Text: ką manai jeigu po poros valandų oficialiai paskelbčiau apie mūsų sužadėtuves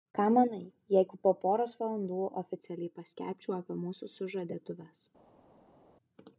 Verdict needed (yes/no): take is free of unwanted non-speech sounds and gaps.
yes